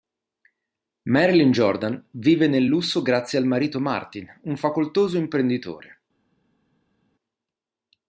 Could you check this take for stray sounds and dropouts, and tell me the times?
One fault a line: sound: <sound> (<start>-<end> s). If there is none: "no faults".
no faults